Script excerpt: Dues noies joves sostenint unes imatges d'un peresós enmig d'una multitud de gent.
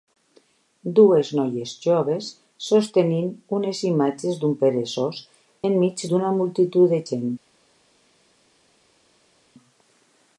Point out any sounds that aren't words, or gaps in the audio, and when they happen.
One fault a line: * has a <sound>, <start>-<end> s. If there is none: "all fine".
all fine